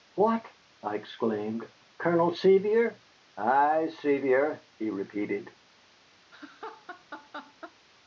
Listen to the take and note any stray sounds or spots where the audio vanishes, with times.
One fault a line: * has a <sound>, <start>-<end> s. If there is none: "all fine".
* has a laugh, 6.3-7.8 s